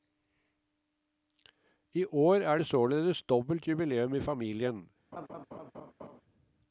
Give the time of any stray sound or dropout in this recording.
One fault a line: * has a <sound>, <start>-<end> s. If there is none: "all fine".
* has a laugh, 5.1-6.2 s